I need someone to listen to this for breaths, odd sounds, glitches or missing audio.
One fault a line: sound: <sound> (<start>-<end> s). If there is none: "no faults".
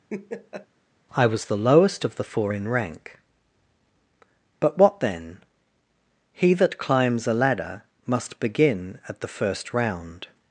sound: laugh (0.1-0.7 s)